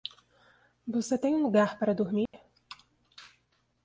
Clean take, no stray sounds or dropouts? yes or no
no